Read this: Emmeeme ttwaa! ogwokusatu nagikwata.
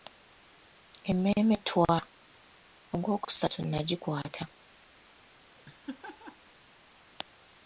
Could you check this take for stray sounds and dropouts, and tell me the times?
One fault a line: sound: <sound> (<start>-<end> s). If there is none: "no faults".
sound: laugh (5.6-6.5 s)